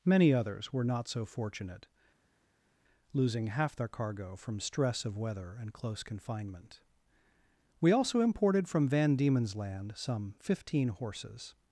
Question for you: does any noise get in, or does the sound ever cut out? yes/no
no